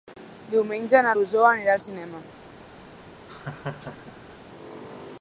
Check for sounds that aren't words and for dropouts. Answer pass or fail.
fail